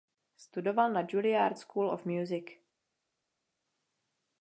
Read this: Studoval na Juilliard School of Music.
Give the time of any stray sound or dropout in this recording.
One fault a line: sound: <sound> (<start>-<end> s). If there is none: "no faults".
no faults